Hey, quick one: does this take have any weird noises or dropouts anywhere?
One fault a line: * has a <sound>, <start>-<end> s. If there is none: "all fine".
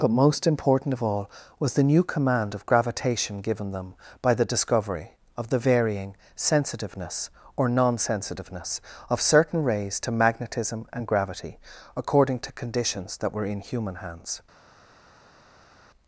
all fine